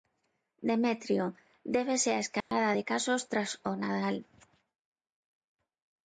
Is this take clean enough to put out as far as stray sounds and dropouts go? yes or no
no